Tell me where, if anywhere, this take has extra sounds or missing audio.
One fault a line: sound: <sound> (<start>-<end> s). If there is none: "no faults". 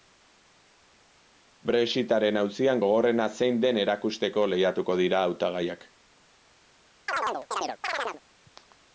sound: chirp (7.1-8.2 s)